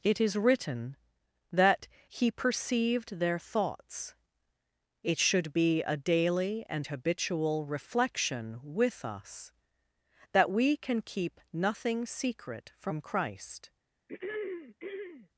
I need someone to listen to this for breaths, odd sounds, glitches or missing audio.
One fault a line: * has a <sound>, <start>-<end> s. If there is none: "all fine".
* has a throat clearing, 14.1-15.3 s